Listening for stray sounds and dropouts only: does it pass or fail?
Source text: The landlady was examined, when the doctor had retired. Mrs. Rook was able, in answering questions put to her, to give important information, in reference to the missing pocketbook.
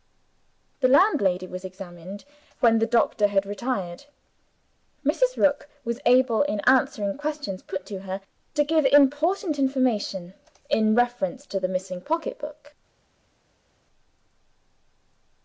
pass